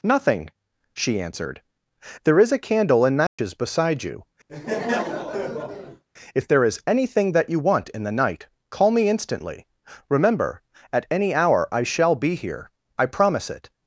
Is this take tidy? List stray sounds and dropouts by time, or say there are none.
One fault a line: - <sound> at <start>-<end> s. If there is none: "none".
- dropout at 3.3-3.4 s
- laugh at 4.5-6.0 s